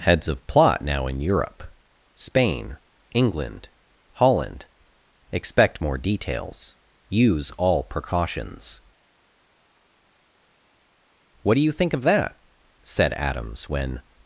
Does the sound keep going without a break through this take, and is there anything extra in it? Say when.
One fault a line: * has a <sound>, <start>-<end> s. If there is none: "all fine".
all fine